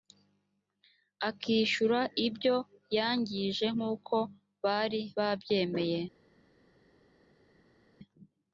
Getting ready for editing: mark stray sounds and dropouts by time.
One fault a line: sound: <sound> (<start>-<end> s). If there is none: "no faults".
no faults